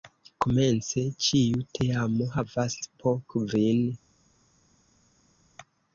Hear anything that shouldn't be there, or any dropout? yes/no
no